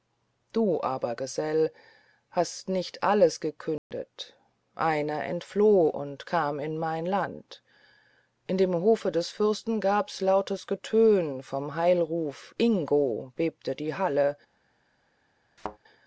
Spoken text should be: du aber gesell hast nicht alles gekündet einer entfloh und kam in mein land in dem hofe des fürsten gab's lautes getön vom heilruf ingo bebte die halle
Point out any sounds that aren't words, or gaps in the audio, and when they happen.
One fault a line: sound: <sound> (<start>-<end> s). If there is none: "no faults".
sound: dropout (3.8-3.9 s)
sound: thud (15.6-15.8 s)